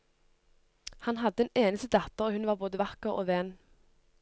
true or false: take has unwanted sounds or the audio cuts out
false